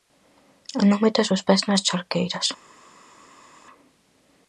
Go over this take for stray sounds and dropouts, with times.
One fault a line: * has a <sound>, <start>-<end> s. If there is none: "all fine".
all fine